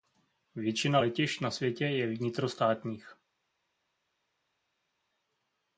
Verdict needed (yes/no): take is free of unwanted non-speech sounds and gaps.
yes